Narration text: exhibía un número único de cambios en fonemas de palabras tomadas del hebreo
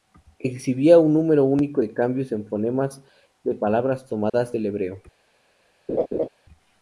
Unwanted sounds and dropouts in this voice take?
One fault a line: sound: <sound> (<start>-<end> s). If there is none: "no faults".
sound: dropout (4.3-4.3 s)
sound: laugh (5.9-6.3 s)